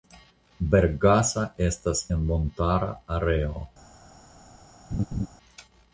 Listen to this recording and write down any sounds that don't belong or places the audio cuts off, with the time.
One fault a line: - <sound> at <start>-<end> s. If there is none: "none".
- laugh at 4.9-5.3 s